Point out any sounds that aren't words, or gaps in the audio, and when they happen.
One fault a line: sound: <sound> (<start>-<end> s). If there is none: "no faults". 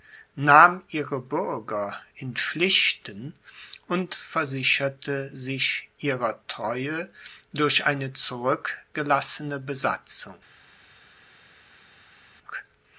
no faults